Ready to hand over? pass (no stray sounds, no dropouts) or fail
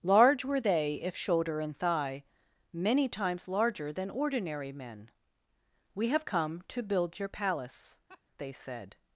fail